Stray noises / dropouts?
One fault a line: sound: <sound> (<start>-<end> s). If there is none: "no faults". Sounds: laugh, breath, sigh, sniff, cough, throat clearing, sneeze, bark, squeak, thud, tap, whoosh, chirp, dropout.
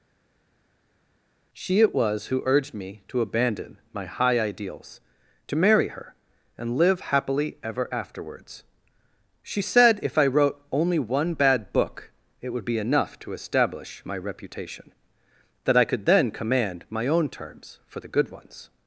no faults